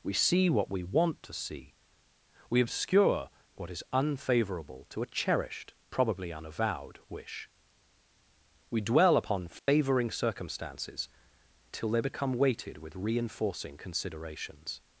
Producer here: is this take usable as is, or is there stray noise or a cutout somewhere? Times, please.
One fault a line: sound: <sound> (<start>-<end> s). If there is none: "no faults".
sound: dropout (9.6-9.7 s)